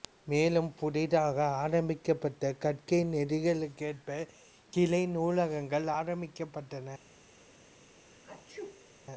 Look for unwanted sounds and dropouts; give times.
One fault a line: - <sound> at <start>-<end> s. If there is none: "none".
- sneeze at 8.0-8.9 s